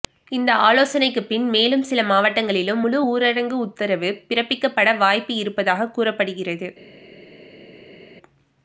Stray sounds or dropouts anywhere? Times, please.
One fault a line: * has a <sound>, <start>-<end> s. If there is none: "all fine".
all fine